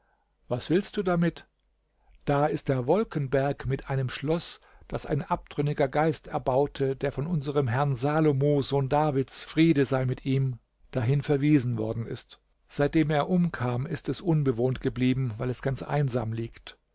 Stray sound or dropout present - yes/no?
no